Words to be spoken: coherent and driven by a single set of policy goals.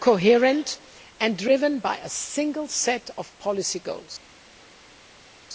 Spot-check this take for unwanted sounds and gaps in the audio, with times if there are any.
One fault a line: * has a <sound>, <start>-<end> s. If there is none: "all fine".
all fine